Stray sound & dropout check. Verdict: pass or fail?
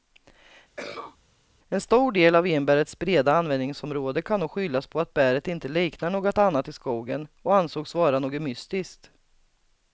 fail